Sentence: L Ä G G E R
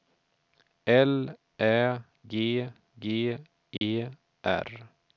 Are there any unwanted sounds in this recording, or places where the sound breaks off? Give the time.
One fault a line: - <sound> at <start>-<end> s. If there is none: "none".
- dropout at 3.8-3.8 s